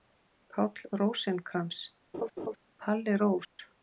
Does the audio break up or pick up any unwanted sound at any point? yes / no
yes